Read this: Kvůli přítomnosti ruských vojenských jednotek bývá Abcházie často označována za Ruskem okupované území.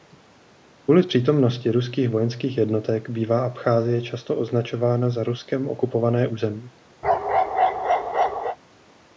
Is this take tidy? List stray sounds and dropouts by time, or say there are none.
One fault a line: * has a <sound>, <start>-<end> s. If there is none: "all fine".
* has a bark, 7.0-8.6 s